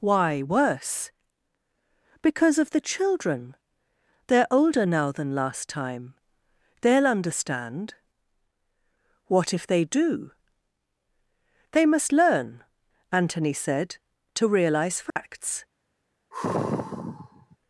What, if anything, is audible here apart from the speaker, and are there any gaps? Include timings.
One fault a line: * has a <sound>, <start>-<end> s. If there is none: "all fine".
* has a dropout, 15.1-15.2 s
* has a sigh, 16.3-17.6 s